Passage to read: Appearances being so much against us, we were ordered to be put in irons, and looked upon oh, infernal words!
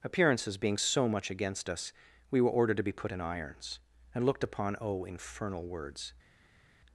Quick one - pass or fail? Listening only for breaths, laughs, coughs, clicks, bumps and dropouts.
pass